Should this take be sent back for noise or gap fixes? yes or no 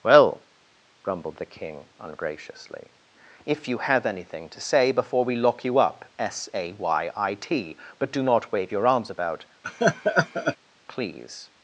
yes